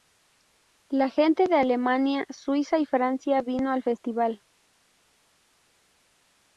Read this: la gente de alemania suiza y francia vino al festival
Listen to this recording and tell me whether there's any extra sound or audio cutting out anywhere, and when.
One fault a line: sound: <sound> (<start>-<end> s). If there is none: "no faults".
no faults